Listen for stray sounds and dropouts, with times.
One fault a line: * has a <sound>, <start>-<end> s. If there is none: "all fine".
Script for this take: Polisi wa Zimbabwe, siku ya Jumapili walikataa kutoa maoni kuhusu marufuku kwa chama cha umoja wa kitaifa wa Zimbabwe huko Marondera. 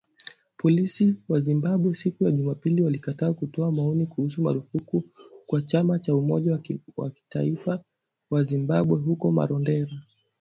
all fine